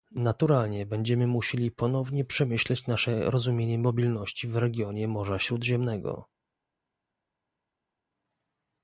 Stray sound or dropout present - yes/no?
no